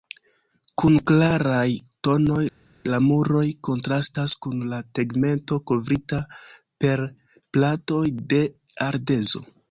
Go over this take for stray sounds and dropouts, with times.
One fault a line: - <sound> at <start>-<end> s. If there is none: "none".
none